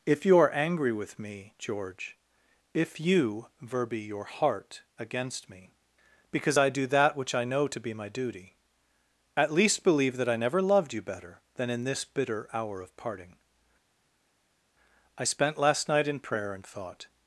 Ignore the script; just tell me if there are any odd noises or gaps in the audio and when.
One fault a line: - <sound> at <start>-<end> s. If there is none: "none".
none